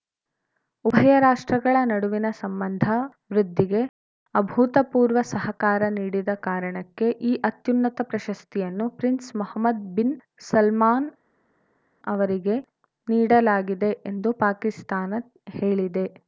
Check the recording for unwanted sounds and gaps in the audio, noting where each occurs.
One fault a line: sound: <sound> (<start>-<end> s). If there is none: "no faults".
no faults